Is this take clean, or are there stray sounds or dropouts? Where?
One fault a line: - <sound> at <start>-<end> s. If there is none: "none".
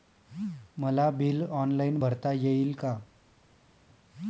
none